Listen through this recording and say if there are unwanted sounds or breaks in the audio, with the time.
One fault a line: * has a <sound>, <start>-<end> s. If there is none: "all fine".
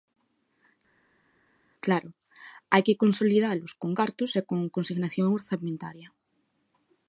all fine